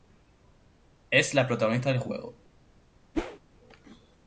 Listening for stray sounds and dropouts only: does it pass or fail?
fail